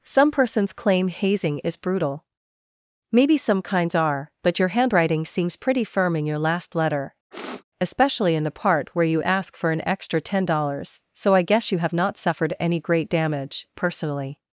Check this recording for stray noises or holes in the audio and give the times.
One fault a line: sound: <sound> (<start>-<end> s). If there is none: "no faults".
sound: sniff (7.3-7.6 s)